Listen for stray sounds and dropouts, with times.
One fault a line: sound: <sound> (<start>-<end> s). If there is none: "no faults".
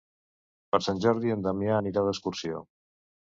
no faults